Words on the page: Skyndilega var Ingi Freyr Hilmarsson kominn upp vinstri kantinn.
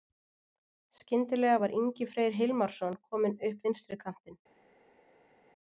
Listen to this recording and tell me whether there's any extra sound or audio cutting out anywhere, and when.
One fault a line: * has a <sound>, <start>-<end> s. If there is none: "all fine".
all fine